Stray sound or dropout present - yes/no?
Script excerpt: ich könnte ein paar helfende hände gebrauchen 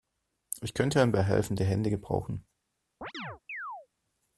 yes